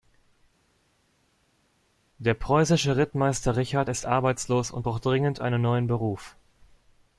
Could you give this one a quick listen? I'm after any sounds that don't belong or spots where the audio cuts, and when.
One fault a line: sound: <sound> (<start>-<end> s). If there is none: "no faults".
no faults